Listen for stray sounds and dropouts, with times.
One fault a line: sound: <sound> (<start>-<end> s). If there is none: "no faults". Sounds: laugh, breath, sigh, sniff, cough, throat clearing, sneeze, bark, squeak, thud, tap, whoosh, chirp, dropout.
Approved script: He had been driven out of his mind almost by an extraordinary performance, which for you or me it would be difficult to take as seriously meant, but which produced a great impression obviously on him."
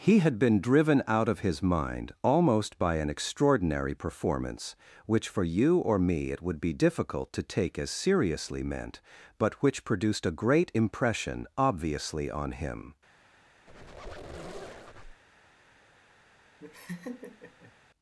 sound: squeak (13.7-15.2 s)
sound: laugh (16.6-17.7 s)